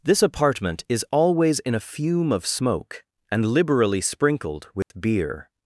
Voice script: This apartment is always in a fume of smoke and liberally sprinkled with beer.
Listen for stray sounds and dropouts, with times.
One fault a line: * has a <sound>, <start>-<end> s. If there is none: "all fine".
* has a dropout, 4.8-4.9 s